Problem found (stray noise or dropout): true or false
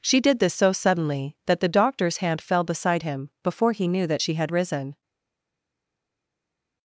false